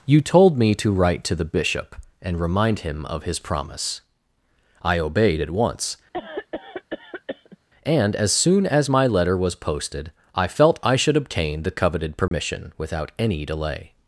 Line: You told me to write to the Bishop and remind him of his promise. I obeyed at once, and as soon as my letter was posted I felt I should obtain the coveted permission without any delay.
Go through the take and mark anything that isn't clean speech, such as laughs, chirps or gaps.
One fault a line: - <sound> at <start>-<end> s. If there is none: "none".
- cough at 6.1-7.6 s
- dropout at 12.3-12.3 s